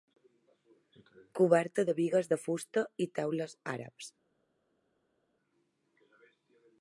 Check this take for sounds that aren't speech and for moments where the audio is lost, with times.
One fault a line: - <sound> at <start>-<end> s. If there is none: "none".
none